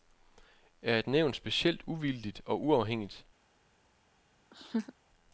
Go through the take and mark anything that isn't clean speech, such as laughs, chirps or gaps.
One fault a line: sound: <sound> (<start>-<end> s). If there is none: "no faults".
sound: laugh (4.5-4.9 s)